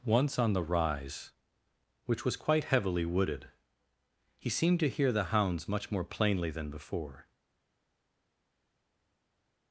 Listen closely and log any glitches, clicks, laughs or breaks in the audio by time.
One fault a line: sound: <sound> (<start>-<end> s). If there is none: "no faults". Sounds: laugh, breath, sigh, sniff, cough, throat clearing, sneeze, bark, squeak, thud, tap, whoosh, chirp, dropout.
no faults